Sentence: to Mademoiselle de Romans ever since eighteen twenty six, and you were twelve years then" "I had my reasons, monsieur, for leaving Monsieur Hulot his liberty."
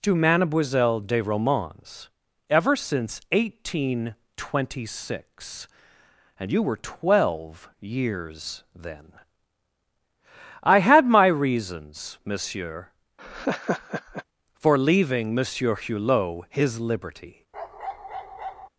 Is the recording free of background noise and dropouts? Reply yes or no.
no